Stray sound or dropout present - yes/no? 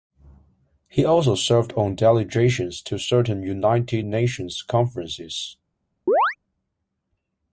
yes